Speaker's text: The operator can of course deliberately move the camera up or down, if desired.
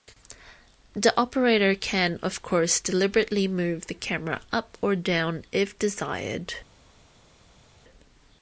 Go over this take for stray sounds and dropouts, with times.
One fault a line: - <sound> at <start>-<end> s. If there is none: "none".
none